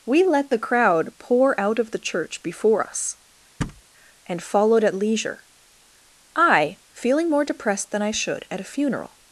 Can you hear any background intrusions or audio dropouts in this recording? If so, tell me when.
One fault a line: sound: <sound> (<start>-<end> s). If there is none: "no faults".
sound: thud (3.6-3.8 s)